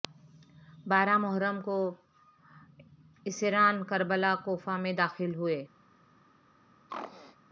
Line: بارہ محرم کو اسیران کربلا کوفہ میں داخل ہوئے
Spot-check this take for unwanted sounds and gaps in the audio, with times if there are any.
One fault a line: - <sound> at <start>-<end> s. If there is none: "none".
- throat clearing at 6.9-7.4 s